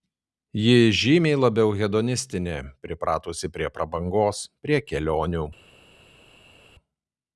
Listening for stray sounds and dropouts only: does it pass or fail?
pass